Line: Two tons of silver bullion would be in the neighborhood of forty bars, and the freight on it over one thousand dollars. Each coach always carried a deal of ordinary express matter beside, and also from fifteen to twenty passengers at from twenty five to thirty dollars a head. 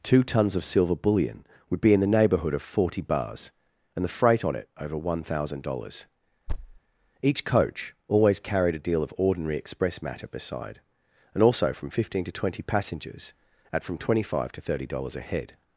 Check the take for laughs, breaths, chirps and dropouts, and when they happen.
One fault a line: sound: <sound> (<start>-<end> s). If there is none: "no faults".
sound: thud (6.5-6.8 s)